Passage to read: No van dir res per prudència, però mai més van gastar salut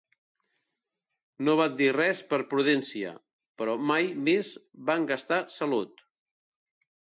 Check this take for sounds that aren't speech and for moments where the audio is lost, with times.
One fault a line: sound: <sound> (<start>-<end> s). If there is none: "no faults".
no faults